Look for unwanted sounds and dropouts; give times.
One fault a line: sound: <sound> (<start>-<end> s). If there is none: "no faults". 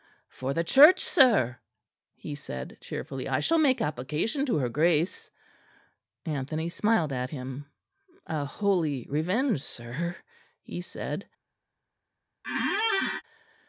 sound: squeak (12.4-13.2 s)